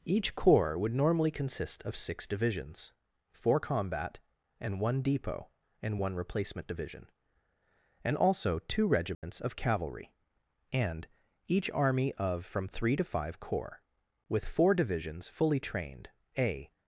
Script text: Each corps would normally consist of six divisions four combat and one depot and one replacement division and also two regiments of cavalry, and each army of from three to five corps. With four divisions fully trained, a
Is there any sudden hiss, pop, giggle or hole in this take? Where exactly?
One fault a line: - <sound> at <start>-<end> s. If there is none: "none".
- dropout at 9.1-9.2 s